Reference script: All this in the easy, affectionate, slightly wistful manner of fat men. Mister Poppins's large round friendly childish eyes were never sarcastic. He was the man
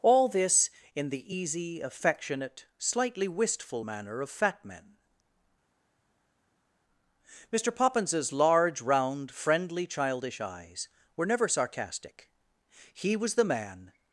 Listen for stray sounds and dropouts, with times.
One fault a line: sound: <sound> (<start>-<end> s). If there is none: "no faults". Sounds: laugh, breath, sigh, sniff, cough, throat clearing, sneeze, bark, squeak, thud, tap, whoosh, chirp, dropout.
no faults